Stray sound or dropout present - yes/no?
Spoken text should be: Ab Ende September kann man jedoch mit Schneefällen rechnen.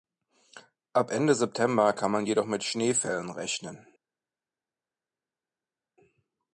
no